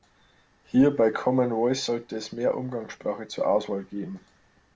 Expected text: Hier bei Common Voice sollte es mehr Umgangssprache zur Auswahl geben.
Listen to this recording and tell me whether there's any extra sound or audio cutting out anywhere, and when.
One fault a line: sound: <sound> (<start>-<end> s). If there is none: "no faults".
no faults